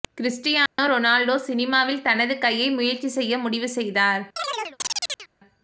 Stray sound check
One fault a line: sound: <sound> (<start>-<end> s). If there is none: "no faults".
sound: dropout (0.7-0.8 s)
sound: chirp (4.4-5.3 s)